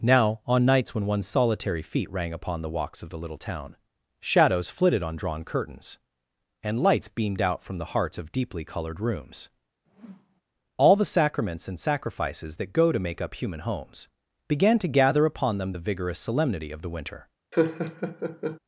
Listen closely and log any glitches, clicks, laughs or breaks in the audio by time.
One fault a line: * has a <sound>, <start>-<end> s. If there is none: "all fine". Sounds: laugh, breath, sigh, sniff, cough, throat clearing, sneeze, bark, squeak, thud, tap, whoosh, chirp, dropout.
* has a whoosh, 9.9-10.4 s
* has a laugh, 17.5-18.6 s